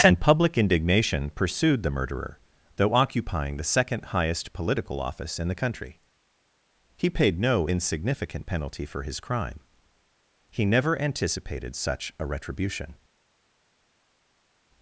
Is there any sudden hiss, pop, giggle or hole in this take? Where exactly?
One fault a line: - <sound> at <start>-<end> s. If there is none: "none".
none